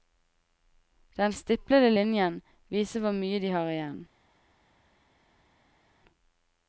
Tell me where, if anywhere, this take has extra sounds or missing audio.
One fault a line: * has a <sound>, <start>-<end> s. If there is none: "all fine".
all fine